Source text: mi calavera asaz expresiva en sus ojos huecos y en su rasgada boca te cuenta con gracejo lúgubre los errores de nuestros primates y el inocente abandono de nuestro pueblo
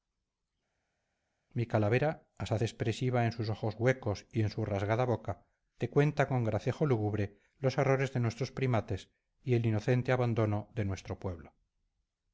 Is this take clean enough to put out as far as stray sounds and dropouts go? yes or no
yes